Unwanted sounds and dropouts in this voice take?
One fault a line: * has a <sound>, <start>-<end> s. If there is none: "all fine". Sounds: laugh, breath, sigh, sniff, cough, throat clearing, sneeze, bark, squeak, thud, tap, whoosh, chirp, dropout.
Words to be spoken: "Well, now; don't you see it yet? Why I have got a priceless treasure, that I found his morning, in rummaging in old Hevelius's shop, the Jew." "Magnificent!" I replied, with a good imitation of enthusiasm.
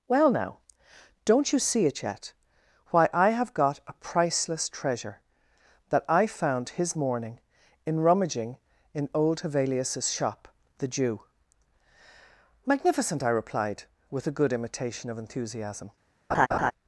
* has a laugh, 16.3-16.7 s